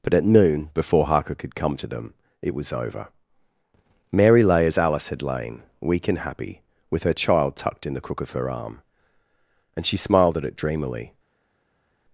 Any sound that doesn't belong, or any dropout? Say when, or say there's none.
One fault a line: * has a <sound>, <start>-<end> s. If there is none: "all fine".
all fine